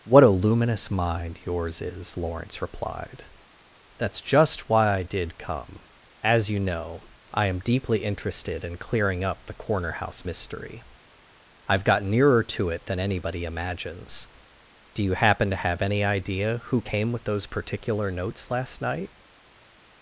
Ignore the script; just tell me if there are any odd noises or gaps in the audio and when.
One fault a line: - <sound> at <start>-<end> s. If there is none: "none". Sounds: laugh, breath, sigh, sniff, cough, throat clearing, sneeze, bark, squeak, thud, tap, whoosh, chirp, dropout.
none